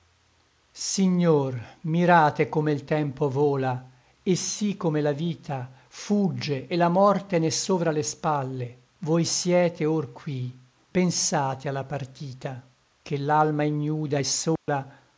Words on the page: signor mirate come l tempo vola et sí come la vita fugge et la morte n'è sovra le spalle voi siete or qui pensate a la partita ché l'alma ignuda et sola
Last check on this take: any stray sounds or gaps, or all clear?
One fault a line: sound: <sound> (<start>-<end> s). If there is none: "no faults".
sound: dropout (14.6-14.7 s)